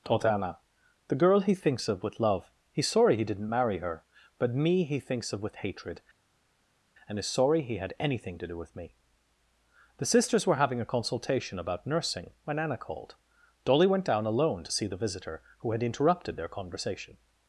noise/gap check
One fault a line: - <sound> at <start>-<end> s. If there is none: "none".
none